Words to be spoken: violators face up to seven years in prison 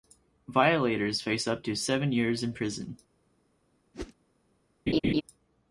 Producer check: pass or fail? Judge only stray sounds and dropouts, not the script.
fail